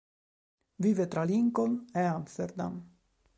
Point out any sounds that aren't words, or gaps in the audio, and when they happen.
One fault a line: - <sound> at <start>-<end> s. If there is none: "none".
none